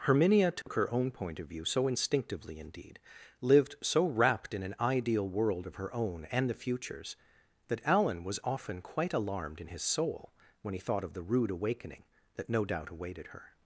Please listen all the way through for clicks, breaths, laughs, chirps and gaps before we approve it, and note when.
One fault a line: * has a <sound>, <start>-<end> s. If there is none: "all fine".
* has a dropout, 0.6-0.7 s